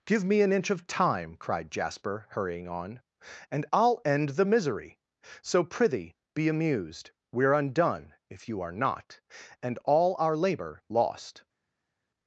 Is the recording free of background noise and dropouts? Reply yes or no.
yes